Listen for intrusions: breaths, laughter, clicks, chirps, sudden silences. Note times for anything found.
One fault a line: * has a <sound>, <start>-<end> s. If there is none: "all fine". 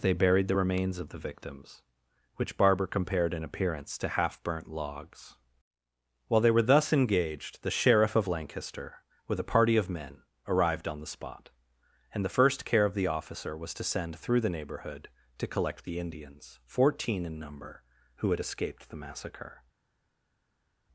all fine